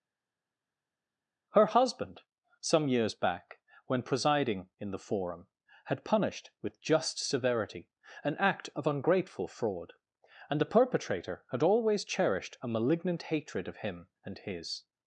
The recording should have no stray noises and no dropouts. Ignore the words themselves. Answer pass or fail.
pass